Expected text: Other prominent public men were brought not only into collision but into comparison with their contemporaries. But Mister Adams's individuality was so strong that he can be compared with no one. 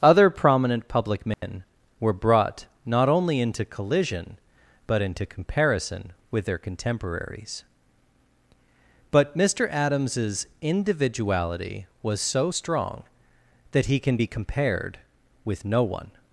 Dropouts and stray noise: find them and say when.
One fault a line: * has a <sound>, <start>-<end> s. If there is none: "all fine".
* has a dropout, 1.3-1.4 s